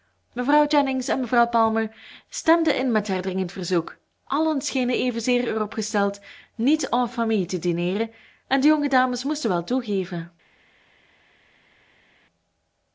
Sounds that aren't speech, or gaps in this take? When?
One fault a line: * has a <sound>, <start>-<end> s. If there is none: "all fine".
all fine